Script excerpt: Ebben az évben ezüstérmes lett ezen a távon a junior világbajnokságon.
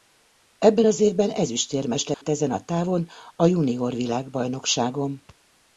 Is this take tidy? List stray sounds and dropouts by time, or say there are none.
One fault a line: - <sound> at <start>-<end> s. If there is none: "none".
- dropout at 2.1-2.2 s